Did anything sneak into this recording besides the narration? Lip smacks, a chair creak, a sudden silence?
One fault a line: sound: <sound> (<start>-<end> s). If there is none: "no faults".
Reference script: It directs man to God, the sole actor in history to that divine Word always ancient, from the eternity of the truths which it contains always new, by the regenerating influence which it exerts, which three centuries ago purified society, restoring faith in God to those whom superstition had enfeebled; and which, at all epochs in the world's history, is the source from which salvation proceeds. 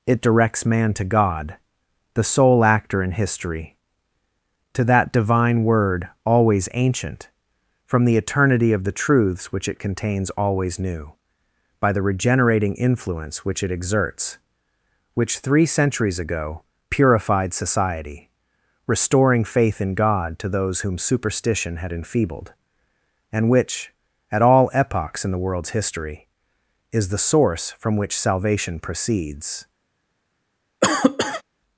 sound: cough (30.8-31.4 s)